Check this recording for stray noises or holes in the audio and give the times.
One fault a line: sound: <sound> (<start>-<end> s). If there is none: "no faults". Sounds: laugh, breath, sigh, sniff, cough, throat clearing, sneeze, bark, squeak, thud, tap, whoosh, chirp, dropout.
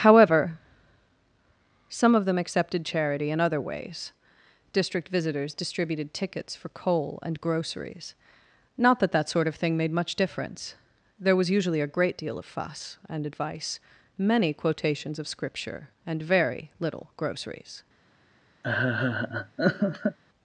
sound: laugh (18.6-20.2 s)